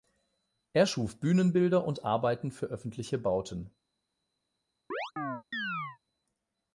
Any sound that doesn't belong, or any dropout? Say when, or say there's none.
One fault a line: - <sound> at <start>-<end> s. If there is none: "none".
- chirp at 4.9-6.0 s